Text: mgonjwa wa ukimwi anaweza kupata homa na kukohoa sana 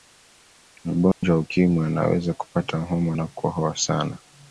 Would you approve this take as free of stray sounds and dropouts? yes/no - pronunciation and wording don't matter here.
no